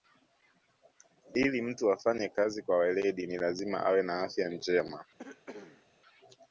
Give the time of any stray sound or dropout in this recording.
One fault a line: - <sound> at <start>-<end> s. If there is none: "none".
- cough at 5.2-5.9 s